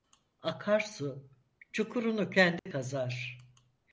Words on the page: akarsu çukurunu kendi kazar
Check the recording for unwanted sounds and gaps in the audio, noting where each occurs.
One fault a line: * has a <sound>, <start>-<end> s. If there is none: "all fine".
* has a dropout, 2.6-2.7 s